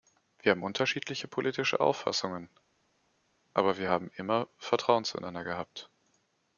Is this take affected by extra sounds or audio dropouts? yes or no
no